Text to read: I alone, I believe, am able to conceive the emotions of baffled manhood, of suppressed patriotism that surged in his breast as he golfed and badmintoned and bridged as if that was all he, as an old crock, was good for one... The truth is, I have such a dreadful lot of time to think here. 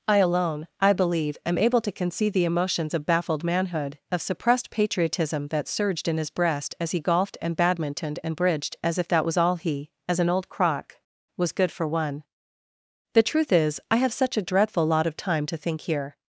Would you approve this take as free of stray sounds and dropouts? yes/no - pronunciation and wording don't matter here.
yes